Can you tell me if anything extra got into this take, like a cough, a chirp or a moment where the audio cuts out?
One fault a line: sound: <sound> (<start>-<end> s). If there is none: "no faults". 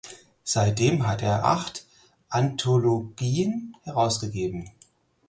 no faults